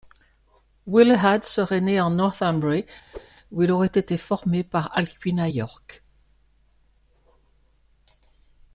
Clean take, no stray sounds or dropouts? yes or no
no